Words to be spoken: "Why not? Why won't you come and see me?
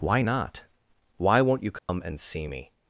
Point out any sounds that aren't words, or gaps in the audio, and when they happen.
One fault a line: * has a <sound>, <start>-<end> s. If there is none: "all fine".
* has a dropout, 1.8-1.9 s